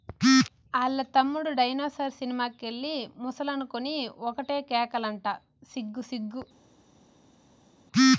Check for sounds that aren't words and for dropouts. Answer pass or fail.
pass